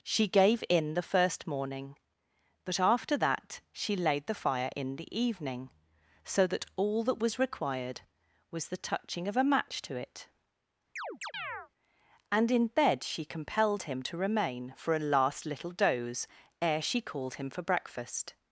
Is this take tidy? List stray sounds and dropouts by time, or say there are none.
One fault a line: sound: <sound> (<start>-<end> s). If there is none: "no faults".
sound: chirp (11.0-11.7 s)